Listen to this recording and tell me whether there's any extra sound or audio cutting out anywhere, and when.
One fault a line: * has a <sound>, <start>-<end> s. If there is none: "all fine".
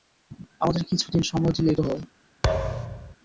* has a thud, 2.4-3.2 s